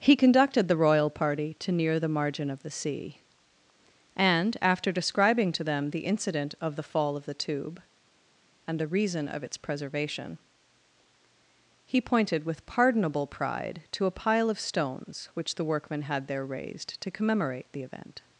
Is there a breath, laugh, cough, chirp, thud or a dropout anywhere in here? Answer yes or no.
no